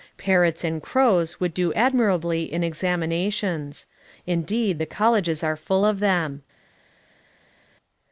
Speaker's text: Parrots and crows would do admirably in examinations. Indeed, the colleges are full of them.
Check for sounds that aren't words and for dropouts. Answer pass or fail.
pass